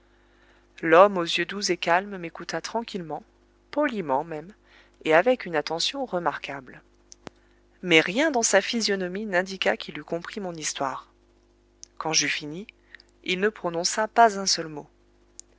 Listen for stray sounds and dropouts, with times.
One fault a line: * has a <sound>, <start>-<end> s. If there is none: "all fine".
all fine